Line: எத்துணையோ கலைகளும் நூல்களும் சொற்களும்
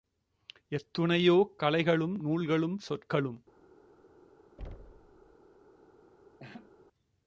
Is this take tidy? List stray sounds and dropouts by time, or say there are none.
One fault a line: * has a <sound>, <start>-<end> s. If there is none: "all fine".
* has a thud, 4.6-5.4 s
* has a laugh, 6.4-6.7 s